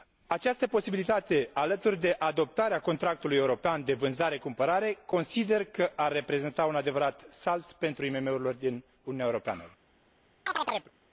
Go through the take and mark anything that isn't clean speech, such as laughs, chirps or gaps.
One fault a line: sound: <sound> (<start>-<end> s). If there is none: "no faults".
sound: chirp (10.5-10.9 s)